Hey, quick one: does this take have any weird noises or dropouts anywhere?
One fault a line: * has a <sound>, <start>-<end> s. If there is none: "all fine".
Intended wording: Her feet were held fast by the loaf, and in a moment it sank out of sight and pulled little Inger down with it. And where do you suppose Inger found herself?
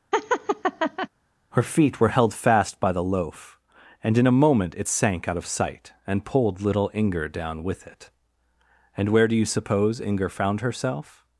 * has a laugh, 0.1-1.1 s